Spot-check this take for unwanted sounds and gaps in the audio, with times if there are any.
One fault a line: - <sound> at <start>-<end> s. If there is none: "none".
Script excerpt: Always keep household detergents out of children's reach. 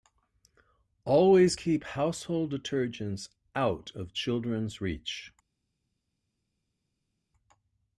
none